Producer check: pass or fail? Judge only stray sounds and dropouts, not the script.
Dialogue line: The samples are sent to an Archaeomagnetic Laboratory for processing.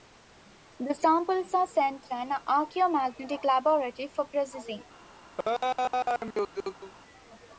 fail